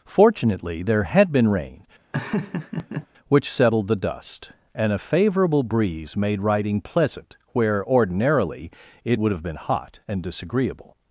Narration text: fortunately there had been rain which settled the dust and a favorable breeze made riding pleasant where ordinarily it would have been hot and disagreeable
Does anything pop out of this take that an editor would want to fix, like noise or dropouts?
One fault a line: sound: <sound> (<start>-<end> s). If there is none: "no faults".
sound: laugh (2.1-3.1 s)